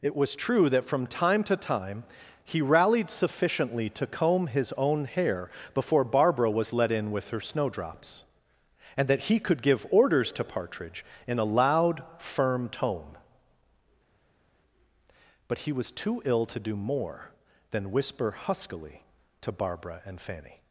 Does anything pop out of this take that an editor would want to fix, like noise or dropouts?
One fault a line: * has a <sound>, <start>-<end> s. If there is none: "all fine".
all fine